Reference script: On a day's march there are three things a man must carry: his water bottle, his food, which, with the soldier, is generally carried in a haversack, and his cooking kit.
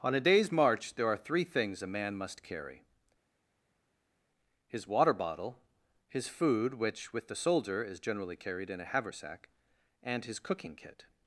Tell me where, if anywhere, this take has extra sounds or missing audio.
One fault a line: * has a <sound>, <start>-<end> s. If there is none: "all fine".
all fine